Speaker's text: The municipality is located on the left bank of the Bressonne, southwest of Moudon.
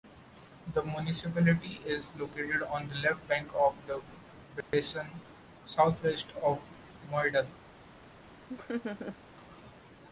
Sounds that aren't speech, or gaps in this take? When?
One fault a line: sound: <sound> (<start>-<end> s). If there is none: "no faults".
sound: dropout (4.6-4.7 s)
sound: laugh (8.5-9.2 s)